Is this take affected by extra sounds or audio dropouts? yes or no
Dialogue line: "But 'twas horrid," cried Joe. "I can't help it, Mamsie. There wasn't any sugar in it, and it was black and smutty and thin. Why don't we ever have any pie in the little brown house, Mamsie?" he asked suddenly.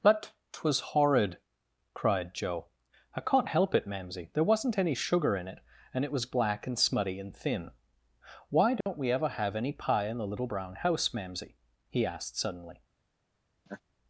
yes